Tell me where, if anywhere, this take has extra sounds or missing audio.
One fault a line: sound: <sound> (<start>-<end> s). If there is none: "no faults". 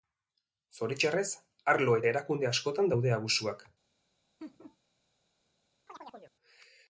sound: laugh (4.4-4.8 s)
sound: chirp (5.9-6.4 s)